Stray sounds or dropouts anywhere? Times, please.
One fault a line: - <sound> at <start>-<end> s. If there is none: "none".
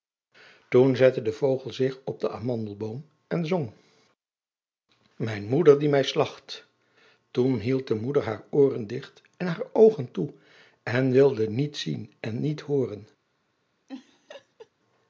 - laugh at 13.9-14.7 s